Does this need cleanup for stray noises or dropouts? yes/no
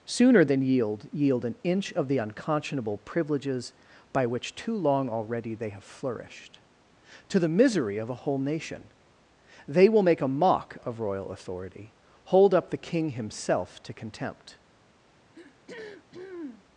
yes